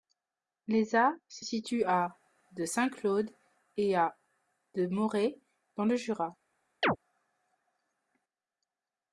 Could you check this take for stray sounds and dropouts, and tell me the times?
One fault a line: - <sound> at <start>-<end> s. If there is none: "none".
- chirp at 6.8-7.0 s